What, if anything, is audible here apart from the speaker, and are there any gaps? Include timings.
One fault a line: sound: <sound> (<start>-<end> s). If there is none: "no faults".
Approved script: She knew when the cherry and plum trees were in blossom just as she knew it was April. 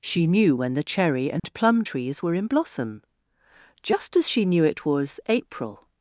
sound: dropout (1.4-1.4 s)